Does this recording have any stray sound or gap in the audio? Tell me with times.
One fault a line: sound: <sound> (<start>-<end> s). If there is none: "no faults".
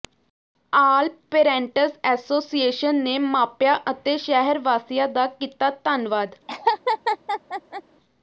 sound: laugh (6.5-7.8 s)